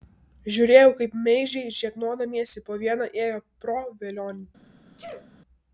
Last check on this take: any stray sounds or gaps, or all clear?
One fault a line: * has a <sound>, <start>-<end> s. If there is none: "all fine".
* has a sneeze, 5.0-5.3 s